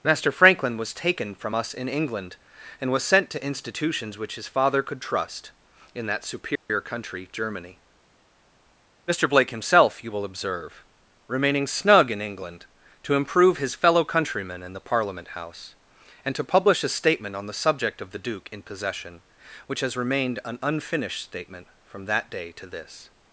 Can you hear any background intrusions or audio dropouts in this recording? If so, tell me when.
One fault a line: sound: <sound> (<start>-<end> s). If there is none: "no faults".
sound: dropout (6.6-6.7 s)